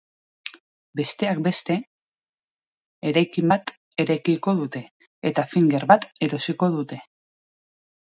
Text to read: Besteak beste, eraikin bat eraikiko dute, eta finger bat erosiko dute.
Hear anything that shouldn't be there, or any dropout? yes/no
no